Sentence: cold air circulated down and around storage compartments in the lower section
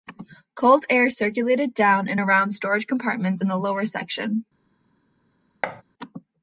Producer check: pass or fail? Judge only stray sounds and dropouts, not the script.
fail